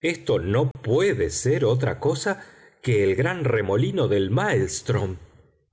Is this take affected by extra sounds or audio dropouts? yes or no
yes